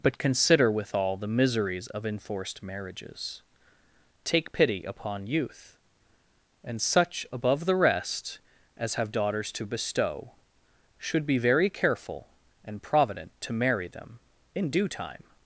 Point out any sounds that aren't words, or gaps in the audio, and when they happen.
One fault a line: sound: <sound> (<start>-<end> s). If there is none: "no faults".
no faults